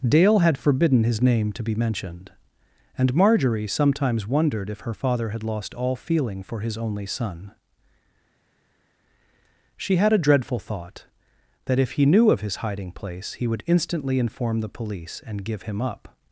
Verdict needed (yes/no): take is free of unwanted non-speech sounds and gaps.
yes